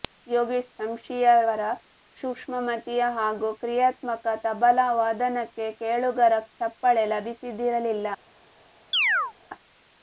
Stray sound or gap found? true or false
true